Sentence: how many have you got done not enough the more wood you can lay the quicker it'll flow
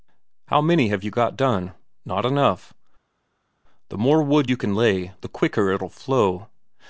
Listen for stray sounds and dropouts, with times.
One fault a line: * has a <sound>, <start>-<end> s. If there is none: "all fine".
all fine